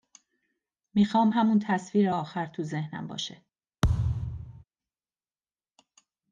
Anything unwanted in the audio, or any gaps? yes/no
yes